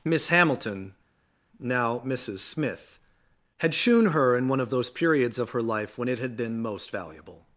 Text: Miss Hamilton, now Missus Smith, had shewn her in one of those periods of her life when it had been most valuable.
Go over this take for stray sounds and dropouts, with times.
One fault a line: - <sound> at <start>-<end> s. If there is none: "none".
none